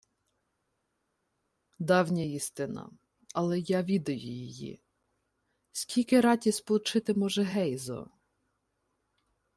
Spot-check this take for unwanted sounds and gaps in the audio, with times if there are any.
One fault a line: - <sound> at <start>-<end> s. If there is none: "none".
none